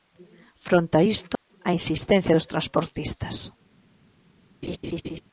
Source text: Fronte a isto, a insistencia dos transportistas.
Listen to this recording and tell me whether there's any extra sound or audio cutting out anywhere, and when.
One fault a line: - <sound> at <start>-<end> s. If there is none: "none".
- dropout at 1.4-1.5 s
- laugh at 4.6-5.2 s